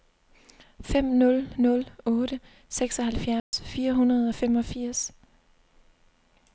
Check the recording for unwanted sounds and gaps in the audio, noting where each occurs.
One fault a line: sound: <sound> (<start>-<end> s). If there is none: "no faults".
sound: dropout (3.4-3.5 s)